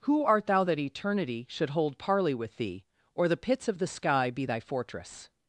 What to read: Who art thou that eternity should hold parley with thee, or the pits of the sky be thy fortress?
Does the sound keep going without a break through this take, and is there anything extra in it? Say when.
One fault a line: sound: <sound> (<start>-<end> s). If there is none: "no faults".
no faults